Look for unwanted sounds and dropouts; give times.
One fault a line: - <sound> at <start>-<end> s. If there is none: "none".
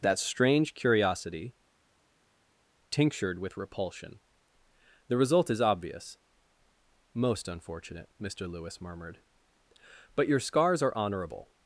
none